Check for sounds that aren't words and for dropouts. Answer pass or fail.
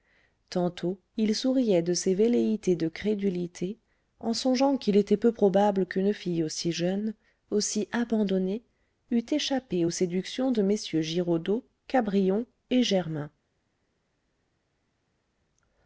pass